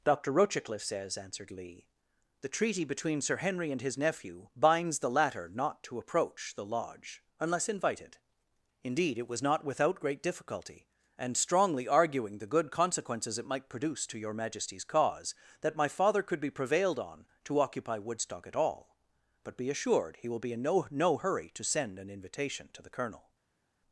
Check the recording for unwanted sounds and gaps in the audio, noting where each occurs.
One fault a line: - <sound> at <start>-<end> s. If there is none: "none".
none